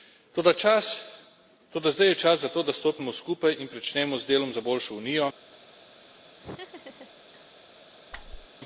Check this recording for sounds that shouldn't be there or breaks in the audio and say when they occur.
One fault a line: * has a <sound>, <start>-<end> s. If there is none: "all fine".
* has a laugh, 6.4-7.5 s
* has a whoosh, 8.1-8.5 s